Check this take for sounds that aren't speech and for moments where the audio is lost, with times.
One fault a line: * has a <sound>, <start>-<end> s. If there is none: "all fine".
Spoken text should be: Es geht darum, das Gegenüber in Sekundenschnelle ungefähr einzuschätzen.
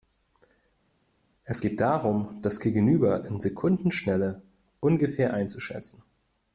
all fine